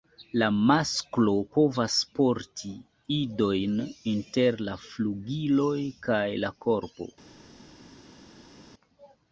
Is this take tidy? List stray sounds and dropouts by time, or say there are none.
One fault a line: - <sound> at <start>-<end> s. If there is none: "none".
none